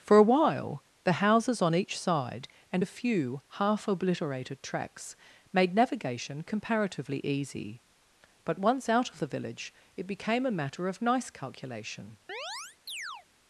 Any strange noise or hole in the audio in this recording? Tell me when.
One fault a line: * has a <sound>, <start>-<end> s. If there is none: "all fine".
* has a chirp, 12.3-13.3 s